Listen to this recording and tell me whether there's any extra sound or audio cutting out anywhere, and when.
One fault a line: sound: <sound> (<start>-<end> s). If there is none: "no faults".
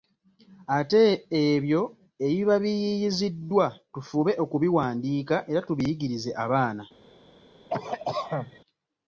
sound: cough (7.7-8.6 s)